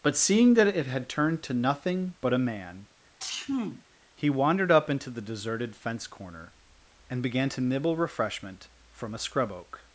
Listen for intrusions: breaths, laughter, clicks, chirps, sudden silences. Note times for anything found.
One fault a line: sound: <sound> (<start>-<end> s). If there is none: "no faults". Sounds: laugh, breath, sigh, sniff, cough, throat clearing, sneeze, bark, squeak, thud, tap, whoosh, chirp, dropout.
sound: sneeze (3.2-3.8 s)